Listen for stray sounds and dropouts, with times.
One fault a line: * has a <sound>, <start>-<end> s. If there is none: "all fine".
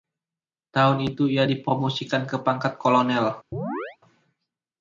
* has a chirp, 3.5-4.0 s